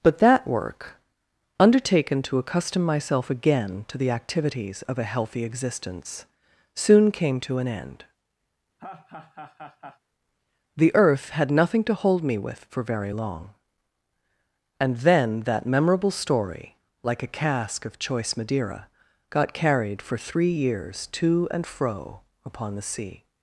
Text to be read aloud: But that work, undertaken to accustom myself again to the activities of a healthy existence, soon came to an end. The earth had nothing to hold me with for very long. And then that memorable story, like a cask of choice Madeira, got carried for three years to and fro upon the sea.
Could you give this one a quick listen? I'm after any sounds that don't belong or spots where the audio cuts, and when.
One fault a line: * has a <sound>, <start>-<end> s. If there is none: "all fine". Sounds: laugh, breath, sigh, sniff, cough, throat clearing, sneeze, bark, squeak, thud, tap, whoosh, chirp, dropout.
* has a laugh, 8.8-10.0 s